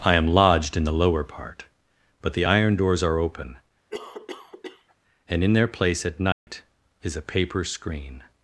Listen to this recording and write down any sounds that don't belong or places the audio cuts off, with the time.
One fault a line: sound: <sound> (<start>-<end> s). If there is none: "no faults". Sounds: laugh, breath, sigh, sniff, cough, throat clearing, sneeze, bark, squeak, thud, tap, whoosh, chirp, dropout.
sound: cough (3.9-5.0 s)
sound: dropout (6.3-6.5 s)